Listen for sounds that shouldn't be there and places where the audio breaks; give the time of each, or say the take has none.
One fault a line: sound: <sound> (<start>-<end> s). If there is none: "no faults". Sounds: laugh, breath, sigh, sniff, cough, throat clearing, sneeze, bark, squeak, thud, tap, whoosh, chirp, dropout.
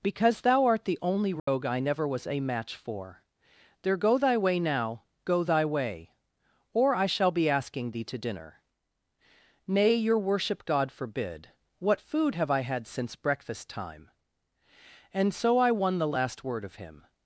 sound: dropout (1.4-1.5 s)